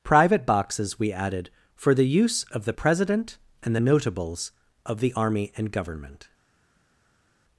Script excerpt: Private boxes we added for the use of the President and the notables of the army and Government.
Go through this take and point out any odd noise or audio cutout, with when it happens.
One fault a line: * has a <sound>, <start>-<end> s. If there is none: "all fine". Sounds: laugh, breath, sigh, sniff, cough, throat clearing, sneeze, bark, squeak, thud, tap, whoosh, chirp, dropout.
all fine